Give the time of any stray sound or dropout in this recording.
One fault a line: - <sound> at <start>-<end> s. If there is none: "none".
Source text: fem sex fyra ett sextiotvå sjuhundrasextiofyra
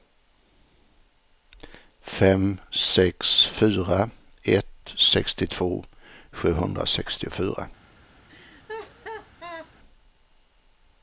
- laugh at 8.3-9.7 s